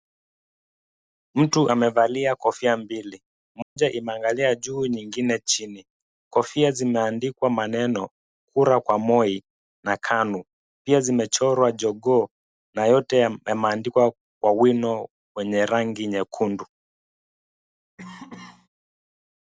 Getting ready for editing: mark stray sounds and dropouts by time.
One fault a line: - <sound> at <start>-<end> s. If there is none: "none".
- dropout at 3.6-3.8 s
- cough at 18.0-18.7 s